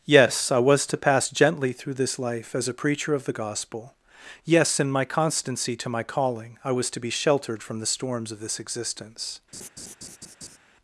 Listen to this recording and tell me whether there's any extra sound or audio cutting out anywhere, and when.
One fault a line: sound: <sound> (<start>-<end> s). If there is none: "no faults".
sound: laugh (9.5-10.6 s)